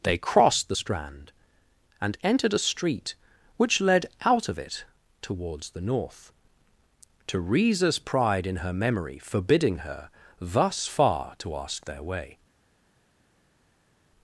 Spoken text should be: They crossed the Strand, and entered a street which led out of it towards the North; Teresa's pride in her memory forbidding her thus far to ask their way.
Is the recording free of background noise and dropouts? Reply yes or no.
yes